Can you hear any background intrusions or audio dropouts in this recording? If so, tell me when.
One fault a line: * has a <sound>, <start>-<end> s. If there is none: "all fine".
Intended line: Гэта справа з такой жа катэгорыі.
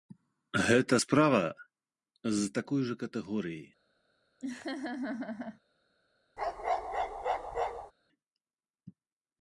* has a laugh, 4.4-5.6 s
* has a bark, 6.4-7.9 s